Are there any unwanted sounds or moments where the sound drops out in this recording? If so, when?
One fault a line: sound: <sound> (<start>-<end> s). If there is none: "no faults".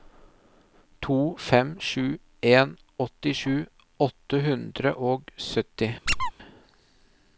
sound: squeak (6.1-6.3 s)